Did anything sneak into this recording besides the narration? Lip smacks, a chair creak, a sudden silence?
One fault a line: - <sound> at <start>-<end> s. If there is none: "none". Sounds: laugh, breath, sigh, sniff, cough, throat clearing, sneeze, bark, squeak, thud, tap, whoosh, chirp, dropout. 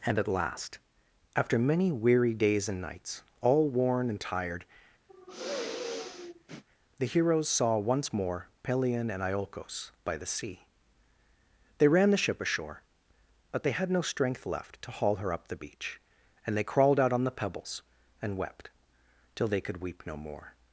- sigh at 5.1-6.6 s